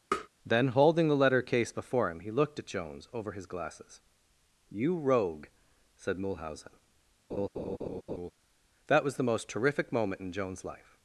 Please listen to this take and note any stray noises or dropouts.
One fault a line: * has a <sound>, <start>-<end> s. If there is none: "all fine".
* has a tap, 0.1-0.3 s
* has a laugh, 7.3-8.3 s